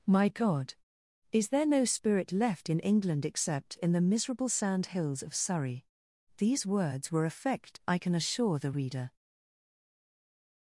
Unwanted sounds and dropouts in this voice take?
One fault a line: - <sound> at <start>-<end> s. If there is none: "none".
none